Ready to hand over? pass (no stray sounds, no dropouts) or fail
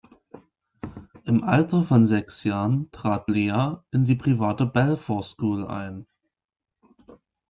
pass